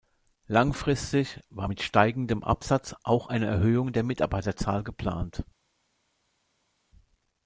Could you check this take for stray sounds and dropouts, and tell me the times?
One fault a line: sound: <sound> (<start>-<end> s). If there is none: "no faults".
no faults